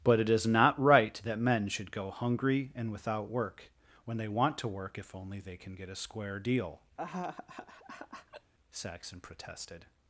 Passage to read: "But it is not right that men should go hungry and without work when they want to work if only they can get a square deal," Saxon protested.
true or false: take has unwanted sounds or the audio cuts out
true